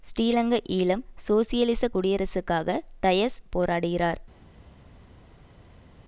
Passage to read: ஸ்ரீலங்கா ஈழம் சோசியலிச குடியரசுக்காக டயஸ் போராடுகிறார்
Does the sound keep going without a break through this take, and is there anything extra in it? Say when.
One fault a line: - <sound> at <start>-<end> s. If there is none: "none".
none